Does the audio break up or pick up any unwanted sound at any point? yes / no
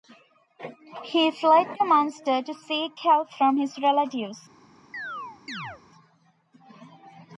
yes